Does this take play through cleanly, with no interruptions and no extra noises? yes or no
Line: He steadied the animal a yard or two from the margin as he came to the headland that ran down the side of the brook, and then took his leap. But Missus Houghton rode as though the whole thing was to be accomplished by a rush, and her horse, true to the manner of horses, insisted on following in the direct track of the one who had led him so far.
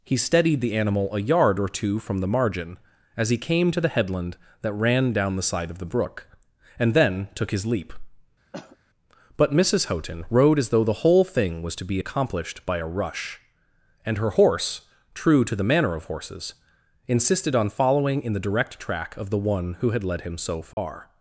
no